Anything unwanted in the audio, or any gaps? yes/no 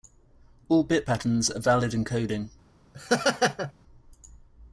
yes